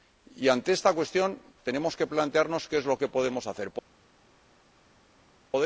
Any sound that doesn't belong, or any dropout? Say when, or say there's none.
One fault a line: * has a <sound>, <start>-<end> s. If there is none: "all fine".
all fine